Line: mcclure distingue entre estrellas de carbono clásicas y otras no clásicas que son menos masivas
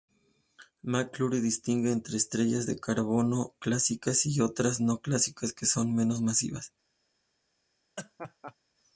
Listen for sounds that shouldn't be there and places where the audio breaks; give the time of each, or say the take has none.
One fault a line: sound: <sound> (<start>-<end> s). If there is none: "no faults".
sound: laugh (8.0-8.5 s)